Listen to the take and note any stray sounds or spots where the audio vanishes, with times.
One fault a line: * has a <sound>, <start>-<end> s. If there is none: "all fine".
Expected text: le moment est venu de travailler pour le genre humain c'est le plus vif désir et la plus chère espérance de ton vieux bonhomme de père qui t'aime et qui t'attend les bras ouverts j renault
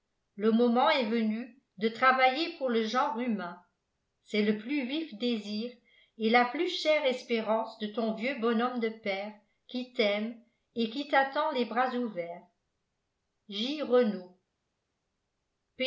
all fine